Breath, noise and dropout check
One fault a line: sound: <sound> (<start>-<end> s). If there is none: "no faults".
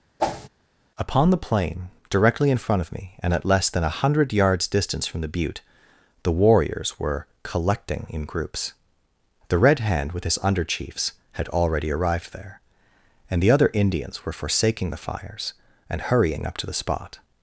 sound: whoosh (0.2-0.5 s)